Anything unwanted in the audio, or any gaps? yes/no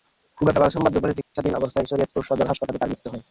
yes